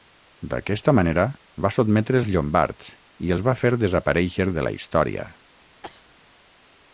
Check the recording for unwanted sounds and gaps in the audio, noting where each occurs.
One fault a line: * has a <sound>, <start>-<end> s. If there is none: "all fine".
* has a cough, 5.8-6.1 s